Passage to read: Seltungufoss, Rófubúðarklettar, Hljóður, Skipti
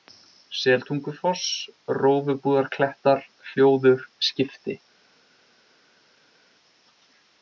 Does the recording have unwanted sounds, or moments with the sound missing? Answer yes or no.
no